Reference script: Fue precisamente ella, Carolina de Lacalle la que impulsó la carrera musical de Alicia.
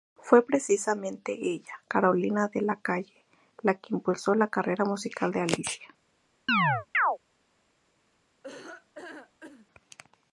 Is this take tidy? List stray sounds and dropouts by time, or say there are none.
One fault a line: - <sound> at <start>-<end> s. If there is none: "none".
- chirp at 6.5-7.2 s
- laugh at 8.4-9.7 s